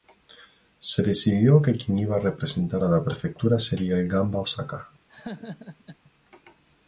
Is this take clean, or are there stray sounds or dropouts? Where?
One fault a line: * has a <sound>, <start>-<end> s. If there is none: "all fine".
* has a laugh, 5.1-6.0 s